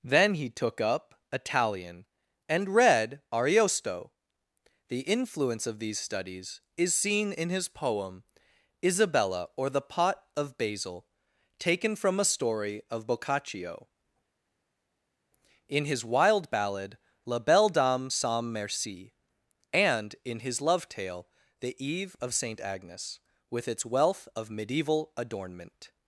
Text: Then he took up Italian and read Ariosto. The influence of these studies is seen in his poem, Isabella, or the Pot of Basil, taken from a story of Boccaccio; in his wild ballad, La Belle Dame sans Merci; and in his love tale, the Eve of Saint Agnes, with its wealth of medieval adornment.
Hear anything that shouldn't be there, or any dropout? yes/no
no